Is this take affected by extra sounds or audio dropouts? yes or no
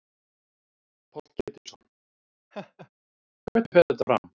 yes